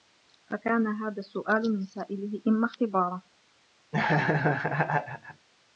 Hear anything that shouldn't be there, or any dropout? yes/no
yes